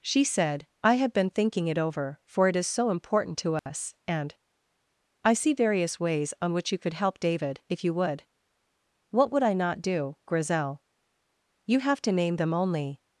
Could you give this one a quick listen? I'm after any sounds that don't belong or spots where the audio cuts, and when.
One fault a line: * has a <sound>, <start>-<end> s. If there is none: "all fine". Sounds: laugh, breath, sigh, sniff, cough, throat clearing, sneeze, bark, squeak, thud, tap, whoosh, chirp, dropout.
* has a dropout, 3.6-3.7 s